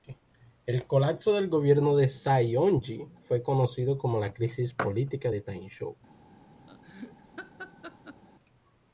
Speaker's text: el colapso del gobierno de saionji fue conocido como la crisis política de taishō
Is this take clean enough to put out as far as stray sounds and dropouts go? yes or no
no